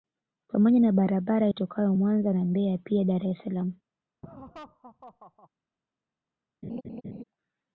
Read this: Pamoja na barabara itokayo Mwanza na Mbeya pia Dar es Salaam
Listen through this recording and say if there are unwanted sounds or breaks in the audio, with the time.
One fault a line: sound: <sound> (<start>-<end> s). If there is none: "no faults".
sound: laugh (4.2-5.5 s)
sound: laugh (6.6-7.2 s)